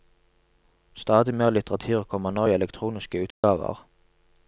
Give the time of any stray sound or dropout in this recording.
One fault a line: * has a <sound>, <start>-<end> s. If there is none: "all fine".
* has a dropout, 3.3-3.4 s